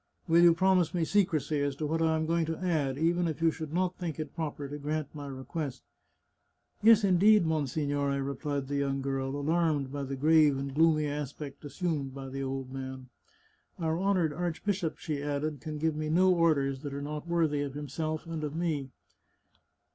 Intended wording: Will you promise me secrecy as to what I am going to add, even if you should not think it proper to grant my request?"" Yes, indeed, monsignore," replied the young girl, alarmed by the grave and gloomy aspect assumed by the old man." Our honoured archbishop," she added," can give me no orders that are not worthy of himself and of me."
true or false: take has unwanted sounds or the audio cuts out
false